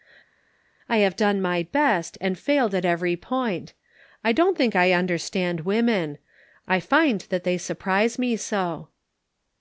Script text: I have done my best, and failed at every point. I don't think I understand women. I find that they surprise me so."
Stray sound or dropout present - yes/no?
no